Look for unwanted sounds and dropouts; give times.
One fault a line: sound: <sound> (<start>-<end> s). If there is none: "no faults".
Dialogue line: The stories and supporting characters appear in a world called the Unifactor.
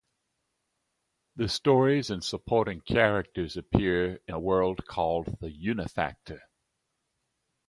no faults